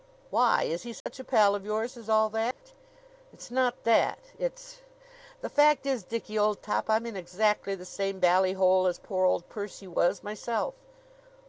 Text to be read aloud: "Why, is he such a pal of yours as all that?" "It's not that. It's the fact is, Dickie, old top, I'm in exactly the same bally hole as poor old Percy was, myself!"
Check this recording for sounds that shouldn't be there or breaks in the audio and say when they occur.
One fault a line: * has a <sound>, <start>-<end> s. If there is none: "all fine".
* has a dropout, 1.0-1.1 s
* has a dropout, 2.5-2.6 s